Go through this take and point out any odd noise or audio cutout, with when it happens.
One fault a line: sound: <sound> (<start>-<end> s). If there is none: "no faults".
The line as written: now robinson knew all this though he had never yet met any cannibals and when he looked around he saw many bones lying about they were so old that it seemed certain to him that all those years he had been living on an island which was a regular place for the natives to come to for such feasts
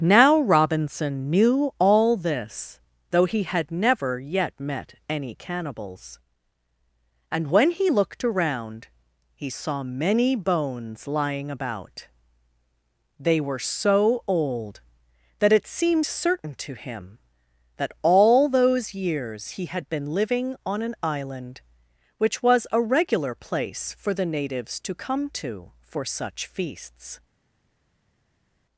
no faults